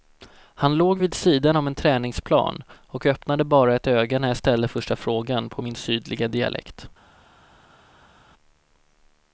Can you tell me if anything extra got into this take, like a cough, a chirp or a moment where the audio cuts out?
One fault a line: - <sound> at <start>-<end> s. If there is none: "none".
none